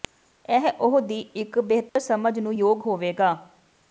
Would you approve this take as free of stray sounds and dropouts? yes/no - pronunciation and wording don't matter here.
no